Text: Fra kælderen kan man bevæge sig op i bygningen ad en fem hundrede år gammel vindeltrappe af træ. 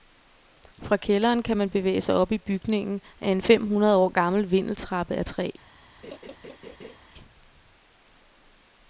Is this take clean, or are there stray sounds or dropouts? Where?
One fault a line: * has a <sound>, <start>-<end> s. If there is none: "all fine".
* has a laugh, 6.0-7.0 s